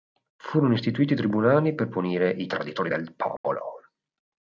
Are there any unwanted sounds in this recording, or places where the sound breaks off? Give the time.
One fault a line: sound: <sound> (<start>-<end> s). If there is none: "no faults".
sound: dropout (3.4-3.4 s)